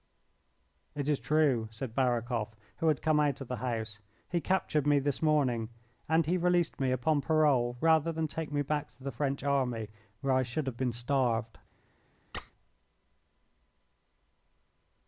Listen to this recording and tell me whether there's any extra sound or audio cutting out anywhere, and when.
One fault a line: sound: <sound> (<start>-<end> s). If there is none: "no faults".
sound: squeak (12.3-12.5 s)